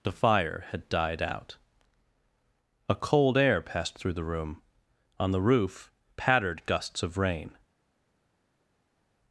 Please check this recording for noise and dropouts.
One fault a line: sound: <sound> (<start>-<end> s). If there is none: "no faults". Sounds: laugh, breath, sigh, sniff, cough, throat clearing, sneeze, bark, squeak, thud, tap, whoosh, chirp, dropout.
no faults